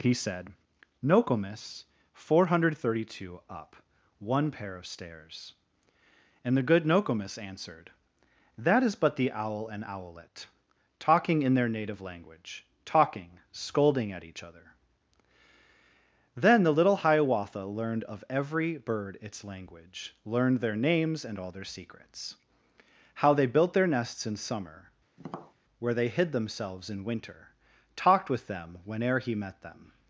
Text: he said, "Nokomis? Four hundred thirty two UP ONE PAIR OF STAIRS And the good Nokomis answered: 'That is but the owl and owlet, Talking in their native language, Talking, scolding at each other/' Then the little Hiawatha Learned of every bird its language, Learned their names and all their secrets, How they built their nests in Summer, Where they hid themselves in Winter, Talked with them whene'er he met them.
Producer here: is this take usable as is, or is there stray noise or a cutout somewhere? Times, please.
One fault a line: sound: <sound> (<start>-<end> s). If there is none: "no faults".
sound: tap (25.2-25.5 s)